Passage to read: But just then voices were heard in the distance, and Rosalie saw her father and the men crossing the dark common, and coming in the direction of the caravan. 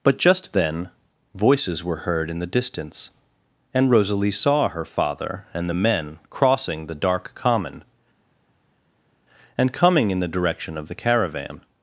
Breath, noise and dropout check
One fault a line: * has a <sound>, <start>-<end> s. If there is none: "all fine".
all fine